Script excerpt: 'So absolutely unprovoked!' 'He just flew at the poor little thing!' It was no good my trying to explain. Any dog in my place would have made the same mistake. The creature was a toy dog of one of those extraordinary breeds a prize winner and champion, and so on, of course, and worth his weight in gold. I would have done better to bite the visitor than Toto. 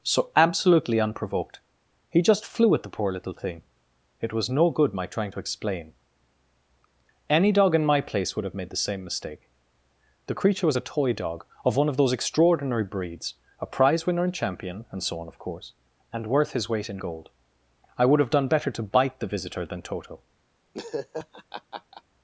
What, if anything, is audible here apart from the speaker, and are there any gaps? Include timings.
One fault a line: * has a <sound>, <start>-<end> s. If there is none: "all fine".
* has a laugh, 20.7-22.0 s